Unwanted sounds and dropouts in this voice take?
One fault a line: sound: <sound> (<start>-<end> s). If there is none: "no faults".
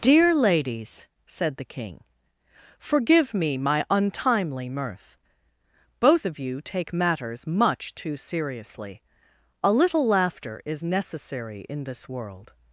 no faults